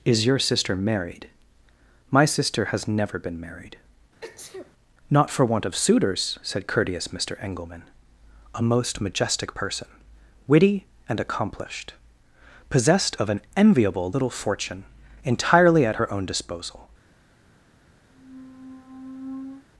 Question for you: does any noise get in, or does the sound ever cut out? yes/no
yes